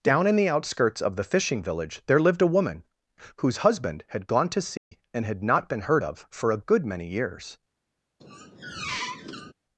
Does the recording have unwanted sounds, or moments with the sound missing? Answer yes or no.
yes